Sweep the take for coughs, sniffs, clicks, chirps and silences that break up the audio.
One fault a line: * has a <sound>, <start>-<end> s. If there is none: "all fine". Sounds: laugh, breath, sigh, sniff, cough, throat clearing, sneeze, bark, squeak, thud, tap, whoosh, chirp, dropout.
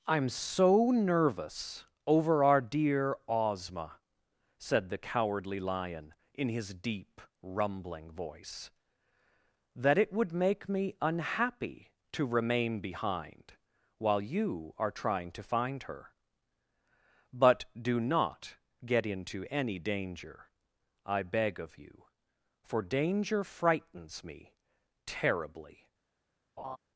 * has a laugh, 26.6-26.8 s